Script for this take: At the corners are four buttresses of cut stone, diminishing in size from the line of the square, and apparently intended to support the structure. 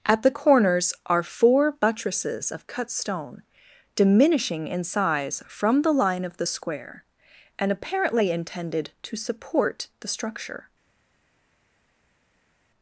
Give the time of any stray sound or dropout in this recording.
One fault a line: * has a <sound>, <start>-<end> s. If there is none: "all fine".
all fine